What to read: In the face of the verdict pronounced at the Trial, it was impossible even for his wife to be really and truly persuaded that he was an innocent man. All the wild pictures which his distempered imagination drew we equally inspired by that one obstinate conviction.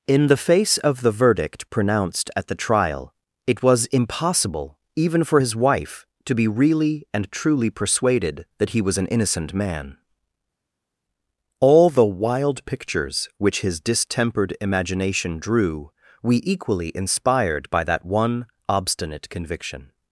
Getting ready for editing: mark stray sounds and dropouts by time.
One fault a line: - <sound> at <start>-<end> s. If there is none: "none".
none